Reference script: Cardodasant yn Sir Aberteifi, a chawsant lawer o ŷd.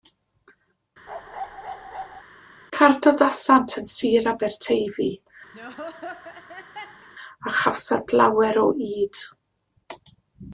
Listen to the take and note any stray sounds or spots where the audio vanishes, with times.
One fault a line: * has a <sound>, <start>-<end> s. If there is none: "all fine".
* has a bark, 1.1-2.2 s
* has a laugh, 5.5-7.1 s